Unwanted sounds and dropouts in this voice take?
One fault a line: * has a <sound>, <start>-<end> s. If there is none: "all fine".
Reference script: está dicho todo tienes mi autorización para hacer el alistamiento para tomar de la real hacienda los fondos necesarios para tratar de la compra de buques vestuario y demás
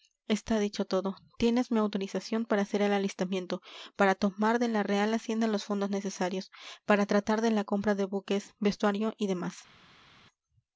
all fine